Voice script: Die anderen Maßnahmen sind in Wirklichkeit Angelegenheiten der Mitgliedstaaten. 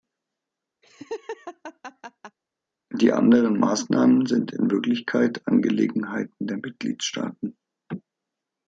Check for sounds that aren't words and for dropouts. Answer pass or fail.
fail